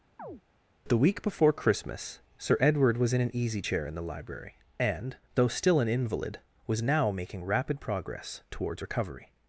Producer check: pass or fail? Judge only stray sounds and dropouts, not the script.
fail